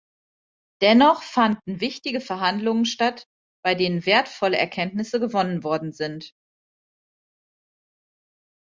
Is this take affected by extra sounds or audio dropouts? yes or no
no